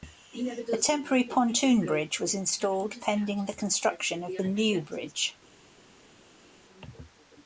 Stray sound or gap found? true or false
false